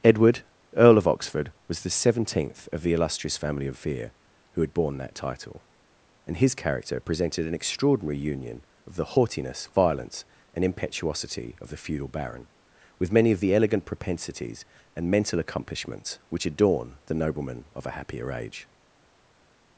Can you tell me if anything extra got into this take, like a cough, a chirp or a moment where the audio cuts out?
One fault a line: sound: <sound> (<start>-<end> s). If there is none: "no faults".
no faults